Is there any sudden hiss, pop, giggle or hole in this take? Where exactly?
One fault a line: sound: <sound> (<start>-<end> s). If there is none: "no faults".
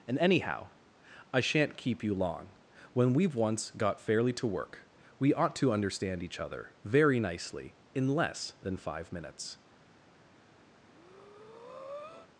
sound: breath (10.7-12.3 s)